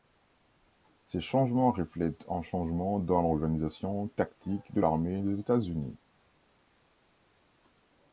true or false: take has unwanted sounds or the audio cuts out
false